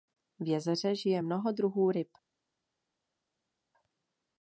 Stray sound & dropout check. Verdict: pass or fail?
pass